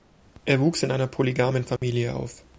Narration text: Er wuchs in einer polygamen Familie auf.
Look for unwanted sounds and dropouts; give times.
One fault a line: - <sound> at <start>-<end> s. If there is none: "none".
- dropout at 1.8-1.8 s